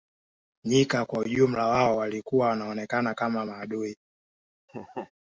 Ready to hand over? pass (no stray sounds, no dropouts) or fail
fail